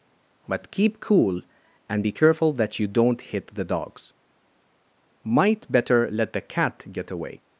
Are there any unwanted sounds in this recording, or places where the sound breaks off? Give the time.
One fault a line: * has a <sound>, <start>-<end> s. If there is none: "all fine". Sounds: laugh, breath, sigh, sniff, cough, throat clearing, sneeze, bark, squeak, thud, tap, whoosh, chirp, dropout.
all fine